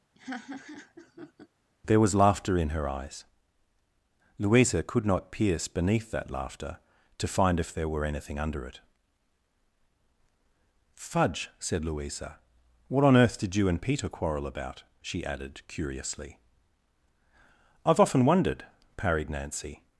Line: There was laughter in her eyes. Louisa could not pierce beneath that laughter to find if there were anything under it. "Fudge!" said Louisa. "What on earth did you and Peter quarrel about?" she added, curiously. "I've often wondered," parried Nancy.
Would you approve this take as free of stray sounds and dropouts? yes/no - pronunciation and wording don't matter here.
no